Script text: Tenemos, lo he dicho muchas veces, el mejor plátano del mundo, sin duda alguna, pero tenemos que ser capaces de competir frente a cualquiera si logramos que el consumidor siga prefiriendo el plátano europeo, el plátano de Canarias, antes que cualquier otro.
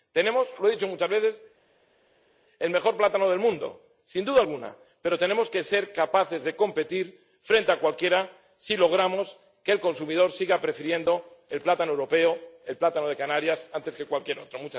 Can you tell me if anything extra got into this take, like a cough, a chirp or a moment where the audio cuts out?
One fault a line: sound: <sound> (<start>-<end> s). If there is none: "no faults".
no faults